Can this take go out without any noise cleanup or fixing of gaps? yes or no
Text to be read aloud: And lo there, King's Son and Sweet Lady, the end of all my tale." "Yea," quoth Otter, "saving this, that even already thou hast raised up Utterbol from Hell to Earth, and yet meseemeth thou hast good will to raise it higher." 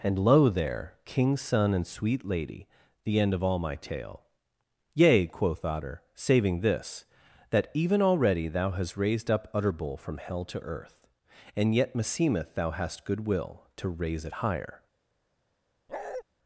no